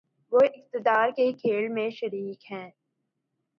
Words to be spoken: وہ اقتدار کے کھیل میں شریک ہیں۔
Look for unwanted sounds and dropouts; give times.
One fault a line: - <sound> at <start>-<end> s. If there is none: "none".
none